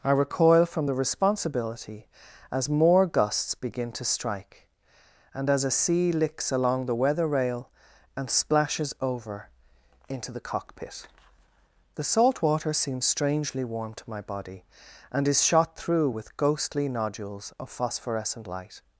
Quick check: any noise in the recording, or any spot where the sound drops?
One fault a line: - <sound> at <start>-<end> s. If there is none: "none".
none